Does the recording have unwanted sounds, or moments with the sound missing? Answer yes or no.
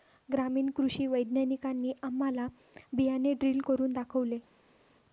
no